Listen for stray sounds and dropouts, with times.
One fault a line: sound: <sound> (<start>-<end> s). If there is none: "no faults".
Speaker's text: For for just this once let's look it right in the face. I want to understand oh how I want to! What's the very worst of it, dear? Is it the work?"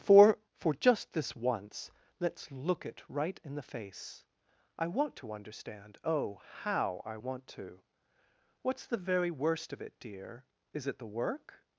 no faults